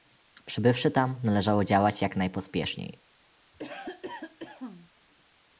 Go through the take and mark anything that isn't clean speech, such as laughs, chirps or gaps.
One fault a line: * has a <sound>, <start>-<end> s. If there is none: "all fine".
* has a cough, 3.5-4.9 s